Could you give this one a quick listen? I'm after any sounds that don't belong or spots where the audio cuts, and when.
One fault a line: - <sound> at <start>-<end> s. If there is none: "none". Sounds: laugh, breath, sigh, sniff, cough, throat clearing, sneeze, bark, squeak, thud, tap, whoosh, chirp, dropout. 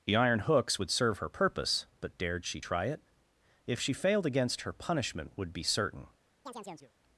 - chirp at 6.5-6.9 s